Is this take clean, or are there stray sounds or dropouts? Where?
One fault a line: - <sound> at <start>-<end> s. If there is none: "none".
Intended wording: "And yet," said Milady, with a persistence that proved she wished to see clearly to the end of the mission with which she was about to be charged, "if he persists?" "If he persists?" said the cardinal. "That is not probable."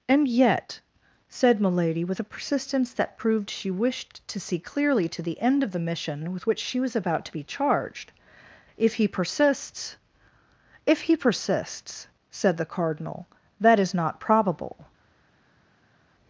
none